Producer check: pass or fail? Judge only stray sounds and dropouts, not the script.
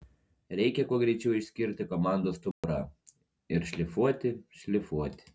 fail